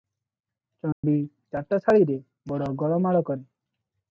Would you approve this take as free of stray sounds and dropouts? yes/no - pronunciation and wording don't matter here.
no